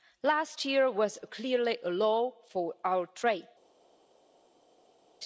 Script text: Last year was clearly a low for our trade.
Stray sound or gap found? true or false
false